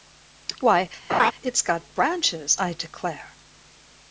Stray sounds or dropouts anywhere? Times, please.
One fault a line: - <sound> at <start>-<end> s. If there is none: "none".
- laugh at 1.1-1.3 s